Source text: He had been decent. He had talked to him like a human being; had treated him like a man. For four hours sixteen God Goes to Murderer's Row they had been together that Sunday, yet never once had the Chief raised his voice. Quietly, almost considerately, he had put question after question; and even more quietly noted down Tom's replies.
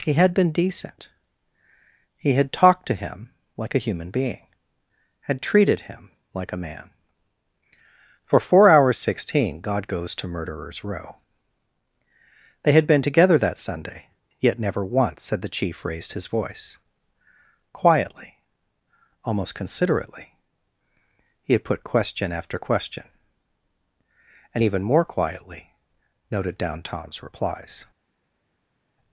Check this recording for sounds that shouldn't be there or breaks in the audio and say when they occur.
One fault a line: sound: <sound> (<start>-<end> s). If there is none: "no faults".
no faults